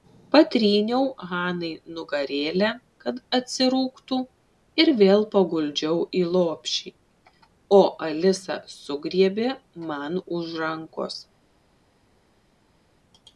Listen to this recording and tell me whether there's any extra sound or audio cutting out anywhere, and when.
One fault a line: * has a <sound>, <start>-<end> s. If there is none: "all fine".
all fine